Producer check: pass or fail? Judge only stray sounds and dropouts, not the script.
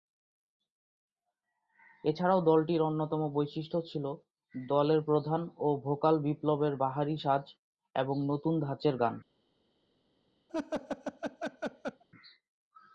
fail